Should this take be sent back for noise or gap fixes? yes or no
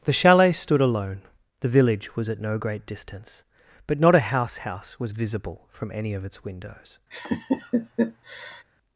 yes